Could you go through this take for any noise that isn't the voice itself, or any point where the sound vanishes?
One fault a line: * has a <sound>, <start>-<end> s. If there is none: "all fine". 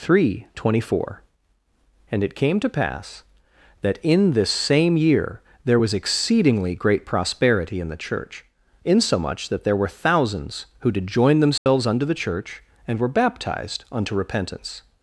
* has a dropout, 11.6-11.7 s